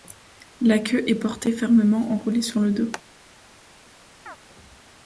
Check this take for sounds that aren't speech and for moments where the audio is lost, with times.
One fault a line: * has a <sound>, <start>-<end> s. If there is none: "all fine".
* has a chirp, 4.3-4.4 s